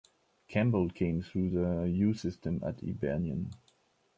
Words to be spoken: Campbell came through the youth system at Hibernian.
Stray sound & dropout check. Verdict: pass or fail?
pass